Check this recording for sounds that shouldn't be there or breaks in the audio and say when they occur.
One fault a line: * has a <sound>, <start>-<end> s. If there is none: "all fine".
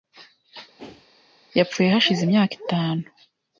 * has a whoosh, 0.8-1.1 s